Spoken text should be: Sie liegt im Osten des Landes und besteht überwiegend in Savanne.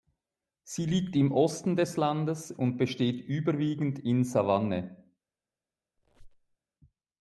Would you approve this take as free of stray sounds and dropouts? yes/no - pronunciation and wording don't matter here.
no